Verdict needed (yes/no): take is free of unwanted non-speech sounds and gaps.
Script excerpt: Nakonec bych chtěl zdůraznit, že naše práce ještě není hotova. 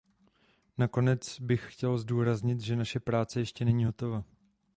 yes